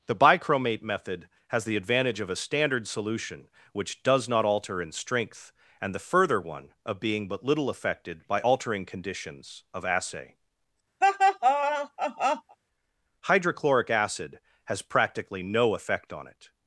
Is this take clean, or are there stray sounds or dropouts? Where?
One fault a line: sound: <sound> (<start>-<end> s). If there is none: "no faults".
sound: laugh (11.0-12.6 s)